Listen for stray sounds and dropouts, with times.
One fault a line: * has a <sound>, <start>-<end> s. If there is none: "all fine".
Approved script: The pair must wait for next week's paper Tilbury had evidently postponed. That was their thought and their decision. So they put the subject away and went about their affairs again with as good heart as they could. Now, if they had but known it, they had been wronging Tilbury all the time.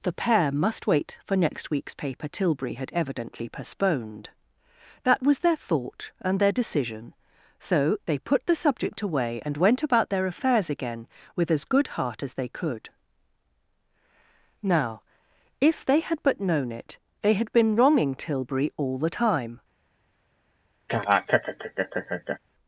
* has a laugh, 20.9-22.4 s